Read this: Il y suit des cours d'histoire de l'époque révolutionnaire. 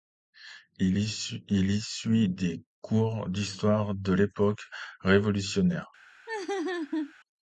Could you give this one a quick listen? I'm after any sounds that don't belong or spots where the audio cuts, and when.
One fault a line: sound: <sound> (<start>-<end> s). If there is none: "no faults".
sound: laugh (6.3-7.1 s)